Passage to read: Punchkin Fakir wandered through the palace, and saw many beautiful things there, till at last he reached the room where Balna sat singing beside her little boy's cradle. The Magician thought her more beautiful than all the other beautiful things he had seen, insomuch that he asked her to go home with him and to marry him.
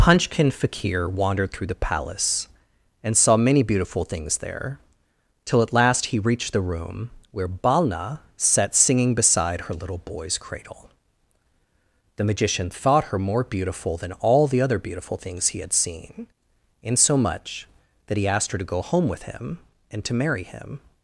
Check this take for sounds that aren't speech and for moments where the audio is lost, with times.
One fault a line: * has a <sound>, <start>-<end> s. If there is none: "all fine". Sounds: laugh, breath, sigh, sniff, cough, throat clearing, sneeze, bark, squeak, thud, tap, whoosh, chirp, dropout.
all fine